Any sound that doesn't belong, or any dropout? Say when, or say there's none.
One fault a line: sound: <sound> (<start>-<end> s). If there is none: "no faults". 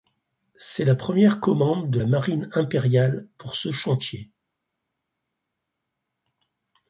no faults